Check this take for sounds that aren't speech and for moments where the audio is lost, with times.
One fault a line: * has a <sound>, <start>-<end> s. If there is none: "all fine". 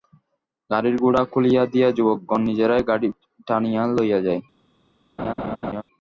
* has a laugh, 5.2-5.8 s